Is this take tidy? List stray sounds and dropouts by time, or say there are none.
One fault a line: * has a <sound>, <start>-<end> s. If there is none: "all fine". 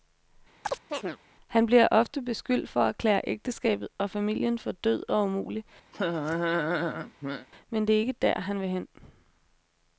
* has a chirp, 0.6-1.2 s
* has a laugh, 5.9-7.5 s